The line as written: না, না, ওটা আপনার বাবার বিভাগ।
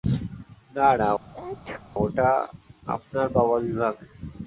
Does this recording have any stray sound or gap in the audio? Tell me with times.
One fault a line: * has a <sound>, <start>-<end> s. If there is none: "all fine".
* has a sneeze, 1.3-1.8 s